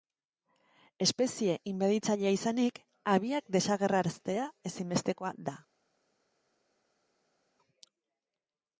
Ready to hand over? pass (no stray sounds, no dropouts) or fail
pass